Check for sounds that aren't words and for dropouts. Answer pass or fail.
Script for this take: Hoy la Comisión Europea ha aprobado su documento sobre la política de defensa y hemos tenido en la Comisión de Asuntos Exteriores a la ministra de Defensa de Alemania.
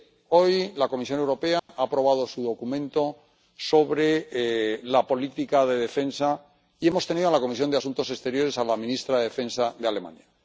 fail